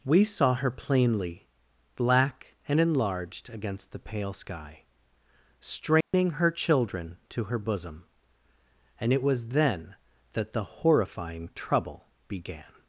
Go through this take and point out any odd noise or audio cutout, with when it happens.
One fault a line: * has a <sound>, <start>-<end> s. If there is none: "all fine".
* has a dropout, 6.0-6.1 s